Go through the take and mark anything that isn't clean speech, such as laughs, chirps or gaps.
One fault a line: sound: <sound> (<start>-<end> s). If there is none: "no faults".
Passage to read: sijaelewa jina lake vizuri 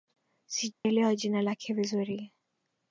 sound: dropout (0.7-0.8 s)